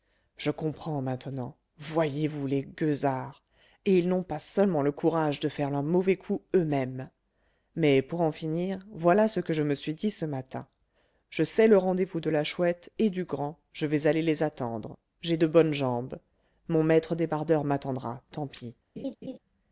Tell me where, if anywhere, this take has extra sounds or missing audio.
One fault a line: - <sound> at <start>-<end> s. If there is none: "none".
- laugh at 19.0-19.4 s